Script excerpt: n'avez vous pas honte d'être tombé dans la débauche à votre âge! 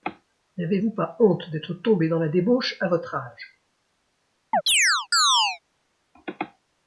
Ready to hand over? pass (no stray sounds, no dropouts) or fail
fail